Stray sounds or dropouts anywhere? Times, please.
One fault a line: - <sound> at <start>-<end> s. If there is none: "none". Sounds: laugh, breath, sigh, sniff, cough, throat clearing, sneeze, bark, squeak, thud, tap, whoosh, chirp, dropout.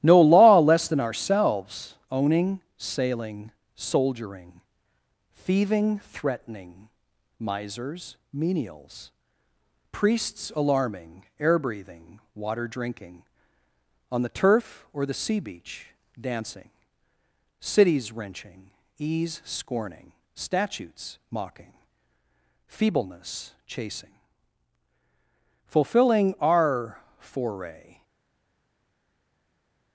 none